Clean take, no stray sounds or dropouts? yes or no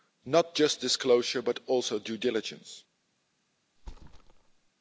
no